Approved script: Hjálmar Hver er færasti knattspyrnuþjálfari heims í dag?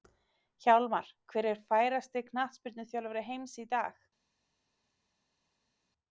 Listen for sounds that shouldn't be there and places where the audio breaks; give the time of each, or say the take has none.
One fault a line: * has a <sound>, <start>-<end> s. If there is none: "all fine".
all fine